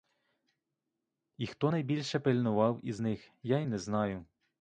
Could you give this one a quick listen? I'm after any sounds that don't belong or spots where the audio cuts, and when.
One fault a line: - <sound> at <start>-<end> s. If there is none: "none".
none